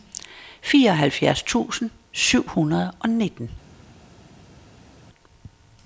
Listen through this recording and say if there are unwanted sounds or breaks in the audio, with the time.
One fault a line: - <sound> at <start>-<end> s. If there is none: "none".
none